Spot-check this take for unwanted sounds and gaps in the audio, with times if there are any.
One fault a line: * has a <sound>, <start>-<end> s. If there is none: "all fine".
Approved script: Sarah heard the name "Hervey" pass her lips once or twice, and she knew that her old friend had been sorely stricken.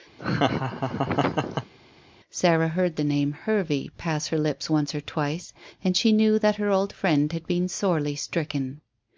* has a laugh, 0.2-1.7 s